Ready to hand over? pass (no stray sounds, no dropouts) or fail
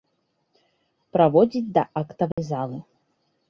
fail